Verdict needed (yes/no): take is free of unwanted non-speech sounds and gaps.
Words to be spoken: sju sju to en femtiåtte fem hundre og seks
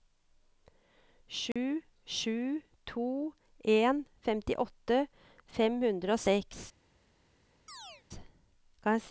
no